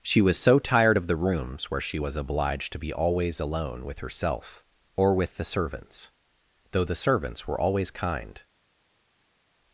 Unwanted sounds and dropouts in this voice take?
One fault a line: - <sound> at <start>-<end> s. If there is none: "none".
none